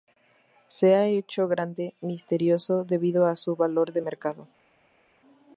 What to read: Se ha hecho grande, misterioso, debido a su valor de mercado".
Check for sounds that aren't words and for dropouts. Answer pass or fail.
pass